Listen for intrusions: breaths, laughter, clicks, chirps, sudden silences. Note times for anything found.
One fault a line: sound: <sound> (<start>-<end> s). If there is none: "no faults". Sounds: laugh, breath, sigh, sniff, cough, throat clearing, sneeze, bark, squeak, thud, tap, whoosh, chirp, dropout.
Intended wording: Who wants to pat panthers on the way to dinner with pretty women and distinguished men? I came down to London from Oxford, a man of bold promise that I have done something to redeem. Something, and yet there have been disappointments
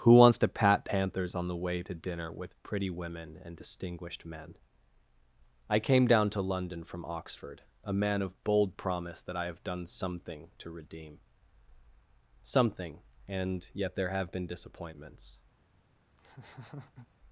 sound: laugh (16.2-17.1 s)